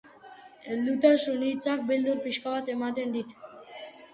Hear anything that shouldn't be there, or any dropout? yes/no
no